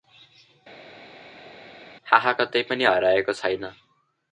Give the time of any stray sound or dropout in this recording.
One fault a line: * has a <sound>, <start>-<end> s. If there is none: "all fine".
all fine